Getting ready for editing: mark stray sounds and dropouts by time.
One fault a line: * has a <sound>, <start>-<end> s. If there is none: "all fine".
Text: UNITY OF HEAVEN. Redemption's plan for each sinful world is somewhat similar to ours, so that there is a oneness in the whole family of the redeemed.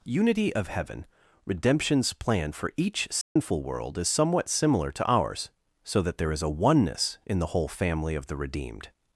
* has a dropout, 3.2-3.4 s